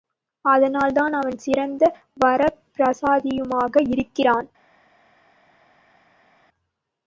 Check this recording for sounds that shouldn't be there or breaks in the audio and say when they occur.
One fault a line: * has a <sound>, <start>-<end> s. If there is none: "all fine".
all fine